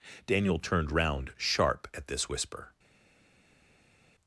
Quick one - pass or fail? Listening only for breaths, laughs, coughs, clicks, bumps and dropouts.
pass